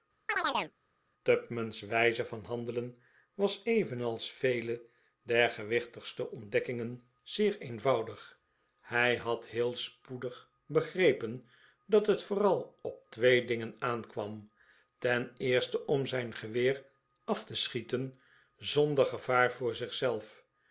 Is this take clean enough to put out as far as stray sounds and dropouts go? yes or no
no